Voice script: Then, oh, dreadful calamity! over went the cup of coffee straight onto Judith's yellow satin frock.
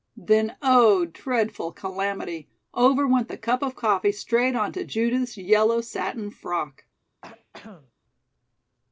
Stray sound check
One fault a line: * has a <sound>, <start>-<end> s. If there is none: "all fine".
* has a throat clearing, 7.2-7.9 s